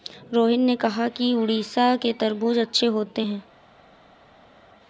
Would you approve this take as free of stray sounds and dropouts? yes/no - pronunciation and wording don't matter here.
yes